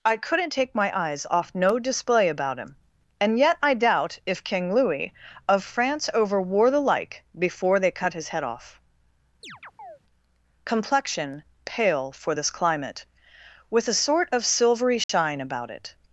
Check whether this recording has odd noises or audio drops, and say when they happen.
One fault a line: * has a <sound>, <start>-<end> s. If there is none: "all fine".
* has a chirp, 9.4-10.0 s
* has a dropout, 15.0-15.1 s